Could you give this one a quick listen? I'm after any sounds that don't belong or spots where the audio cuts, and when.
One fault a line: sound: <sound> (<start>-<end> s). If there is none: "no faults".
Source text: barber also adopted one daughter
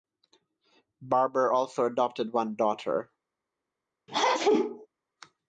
sound: sneeze (4.1-4.9 s)